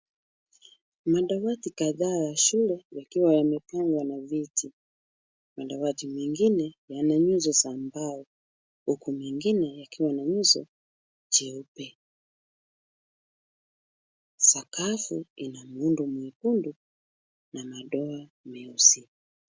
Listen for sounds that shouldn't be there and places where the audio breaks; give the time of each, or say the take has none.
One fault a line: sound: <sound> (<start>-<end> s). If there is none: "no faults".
no faults